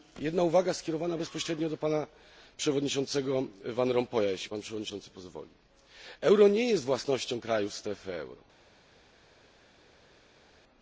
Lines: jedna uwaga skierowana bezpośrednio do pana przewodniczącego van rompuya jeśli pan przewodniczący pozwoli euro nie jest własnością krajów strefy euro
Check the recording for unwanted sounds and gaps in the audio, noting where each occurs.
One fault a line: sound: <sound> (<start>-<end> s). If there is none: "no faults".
no faults